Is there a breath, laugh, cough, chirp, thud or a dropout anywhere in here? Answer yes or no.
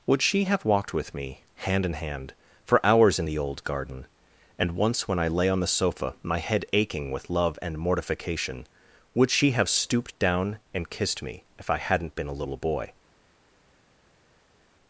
no